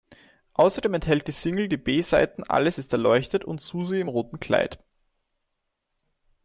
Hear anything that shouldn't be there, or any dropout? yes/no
no